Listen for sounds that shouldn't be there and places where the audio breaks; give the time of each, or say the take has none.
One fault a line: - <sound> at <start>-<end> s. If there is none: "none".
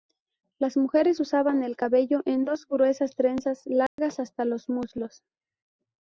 - dropout at 3.9-4.0 s